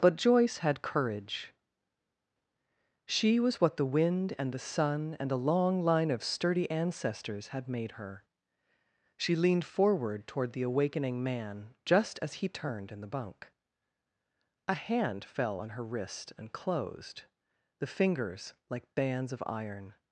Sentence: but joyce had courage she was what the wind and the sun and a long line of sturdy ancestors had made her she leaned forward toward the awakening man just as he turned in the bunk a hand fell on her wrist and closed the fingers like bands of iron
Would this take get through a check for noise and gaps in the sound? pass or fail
pass